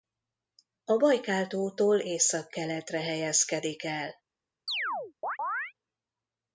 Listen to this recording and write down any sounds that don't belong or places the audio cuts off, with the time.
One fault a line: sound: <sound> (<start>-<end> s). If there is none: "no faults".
sound: chirp (4.7-5.7 s)